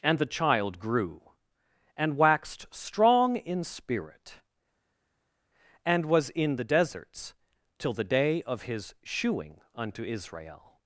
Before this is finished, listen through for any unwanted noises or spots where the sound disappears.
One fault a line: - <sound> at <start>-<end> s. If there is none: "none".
none